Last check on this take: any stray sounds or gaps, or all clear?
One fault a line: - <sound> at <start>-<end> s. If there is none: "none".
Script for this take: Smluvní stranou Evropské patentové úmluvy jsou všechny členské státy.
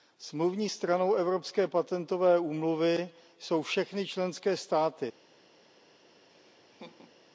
- laugh at 6.3-7.2 s